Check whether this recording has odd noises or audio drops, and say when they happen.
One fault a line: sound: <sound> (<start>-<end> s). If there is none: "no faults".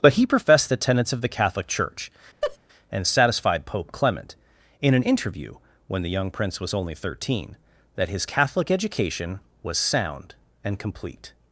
sound: laugh (2.4-2.6 s)